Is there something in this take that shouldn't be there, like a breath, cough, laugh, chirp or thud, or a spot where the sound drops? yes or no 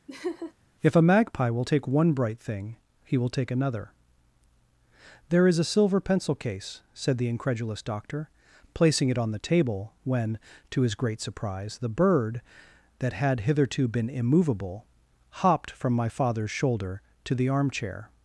yes